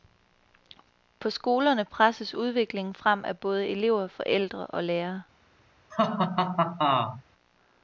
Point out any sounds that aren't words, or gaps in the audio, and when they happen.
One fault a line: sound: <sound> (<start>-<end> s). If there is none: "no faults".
sound: laugh (5.9-7.2 s)